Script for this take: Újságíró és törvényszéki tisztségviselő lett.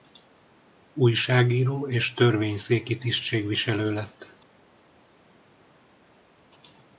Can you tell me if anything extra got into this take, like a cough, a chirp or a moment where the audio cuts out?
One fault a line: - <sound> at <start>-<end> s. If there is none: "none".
none